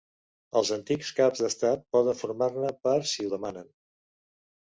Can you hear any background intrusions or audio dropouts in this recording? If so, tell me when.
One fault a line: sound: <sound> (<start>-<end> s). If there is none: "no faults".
no faults